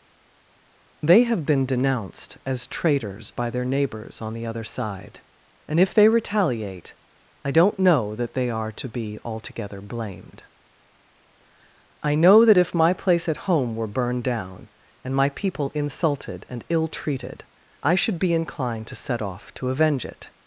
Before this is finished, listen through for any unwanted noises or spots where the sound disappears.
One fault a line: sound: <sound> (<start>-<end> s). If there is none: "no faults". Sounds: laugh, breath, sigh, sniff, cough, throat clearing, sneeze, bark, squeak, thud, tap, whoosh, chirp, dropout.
no faults